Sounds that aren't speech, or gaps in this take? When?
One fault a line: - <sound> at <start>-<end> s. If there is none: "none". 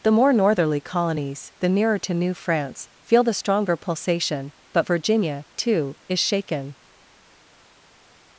none